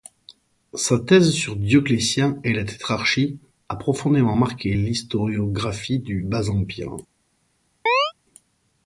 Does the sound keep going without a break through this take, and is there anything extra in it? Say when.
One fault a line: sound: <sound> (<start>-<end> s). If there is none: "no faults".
sound: chirp (7.9-8.1 s)